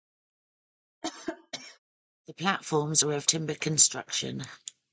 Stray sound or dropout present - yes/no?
yes